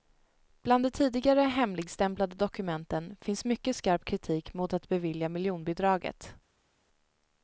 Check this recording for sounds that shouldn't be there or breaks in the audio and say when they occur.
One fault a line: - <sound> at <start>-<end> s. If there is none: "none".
none